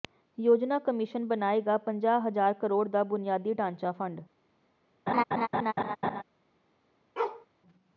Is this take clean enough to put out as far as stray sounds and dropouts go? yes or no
no